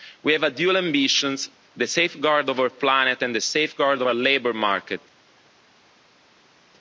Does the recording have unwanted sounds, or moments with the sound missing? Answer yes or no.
no